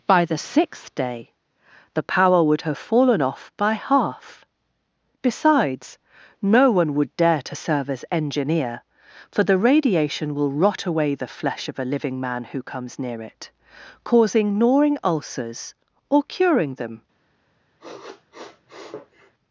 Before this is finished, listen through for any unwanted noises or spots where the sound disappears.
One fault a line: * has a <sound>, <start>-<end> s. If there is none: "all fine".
* has a sniff, 17.8-19.3 s